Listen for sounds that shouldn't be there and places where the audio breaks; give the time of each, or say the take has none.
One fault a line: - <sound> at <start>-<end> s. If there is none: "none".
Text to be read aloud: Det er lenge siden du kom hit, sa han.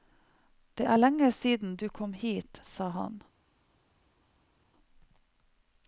none